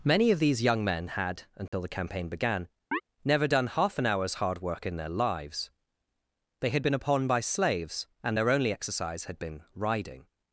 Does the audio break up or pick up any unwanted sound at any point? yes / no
yes